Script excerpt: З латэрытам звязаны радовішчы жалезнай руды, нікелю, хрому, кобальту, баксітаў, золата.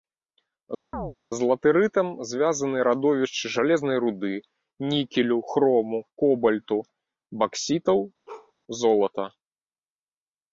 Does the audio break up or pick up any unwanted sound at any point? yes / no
yes